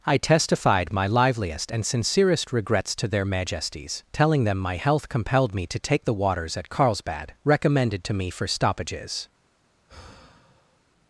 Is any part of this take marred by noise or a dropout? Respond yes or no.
yes